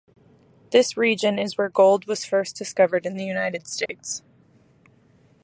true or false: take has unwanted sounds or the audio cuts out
true